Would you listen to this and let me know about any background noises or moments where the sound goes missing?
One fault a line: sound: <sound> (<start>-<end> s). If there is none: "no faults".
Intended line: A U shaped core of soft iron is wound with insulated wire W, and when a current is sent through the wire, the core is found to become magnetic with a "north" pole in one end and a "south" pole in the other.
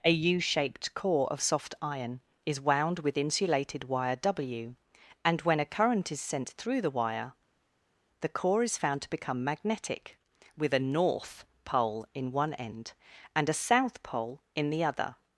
no faults